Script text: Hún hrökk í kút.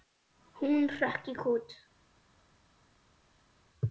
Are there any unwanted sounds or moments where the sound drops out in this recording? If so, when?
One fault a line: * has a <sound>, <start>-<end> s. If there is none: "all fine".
all fine